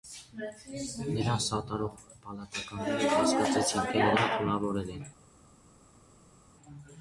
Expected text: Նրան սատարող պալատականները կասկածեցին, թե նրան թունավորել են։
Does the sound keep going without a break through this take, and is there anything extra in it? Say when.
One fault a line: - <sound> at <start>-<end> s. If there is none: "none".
none